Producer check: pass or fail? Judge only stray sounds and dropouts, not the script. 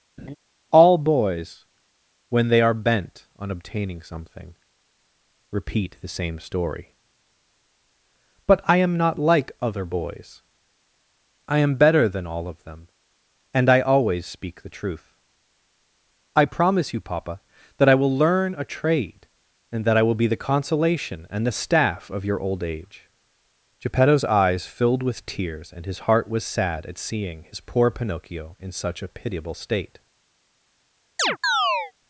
fail